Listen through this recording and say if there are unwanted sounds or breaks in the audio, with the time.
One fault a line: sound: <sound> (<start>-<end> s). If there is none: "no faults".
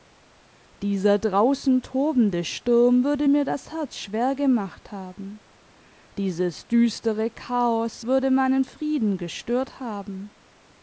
no faults